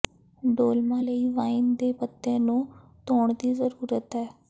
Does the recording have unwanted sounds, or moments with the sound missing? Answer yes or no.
no